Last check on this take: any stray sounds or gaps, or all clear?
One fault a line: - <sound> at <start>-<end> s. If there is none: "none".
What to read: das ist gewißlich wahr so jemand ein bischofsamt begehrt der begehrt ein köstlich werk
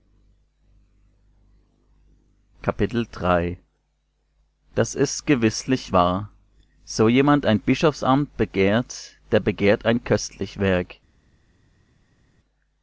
none